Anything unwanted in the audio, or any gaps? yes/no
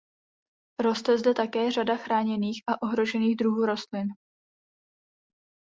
no